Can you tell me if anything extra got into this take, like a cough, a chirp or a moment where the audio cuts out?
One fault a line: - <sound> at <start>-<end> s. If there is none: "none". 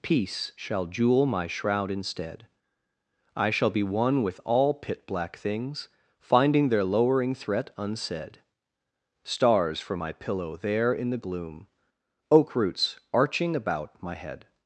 none